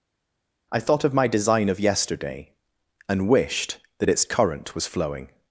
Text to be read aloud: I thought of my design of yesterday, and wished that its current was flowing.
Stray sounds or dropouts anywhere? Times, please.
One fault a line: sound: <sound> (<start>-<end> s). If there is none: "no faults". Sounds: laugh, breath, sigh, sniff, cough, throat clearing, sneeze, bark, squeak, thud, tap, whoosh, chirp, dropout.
no faults